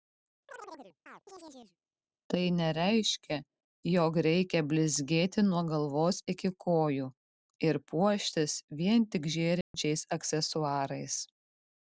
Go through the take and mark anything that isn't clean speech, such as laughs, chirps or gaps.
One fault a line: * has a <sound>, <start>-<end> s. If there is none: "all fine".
* has a chirp, 0.5-1.8 s
* has a dropout, 9.6-9.7 s